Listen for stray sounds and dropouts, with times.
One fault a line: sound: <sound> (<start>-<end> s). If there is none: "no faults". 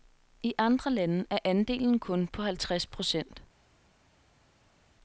no faults